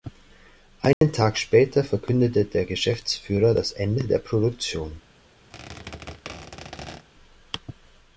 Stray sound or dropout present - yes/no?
yes